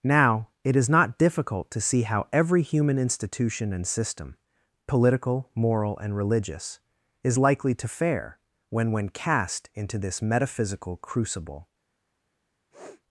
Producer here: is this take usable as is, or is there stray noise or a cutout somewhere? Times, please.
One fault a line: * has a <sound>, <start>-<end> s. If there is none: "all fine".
* has a sniff, 12.7-13.0 s